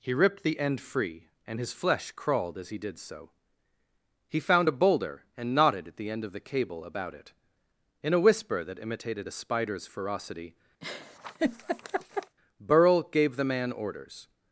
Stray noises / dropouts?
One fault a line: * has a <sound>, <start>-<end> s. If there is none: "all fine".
* has a laugh, 10.8-12.4 s